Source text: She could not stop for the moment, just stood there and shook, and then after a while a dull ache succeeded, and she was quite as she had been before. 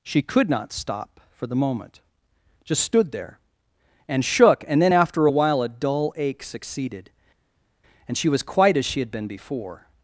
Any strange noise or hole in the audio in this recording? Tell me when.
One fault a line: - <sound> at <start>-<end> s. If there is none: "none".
none